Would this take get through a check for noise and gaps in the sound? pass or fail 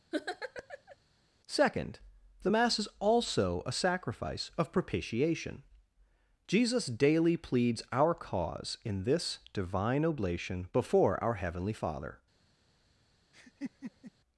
fail